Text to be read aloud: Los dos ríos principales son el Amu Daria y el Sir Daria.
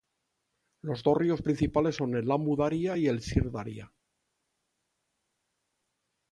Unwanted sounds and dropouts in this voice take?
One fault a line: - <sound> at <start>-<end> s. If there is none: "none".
none